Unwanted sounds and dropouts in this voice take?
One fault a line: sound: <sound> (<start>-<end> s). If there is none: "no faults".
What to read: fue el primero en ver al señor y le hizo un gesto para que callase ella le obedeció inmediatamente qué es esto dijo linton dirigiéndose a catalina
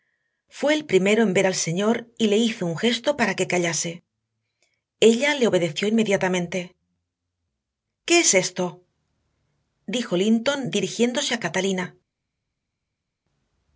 no faults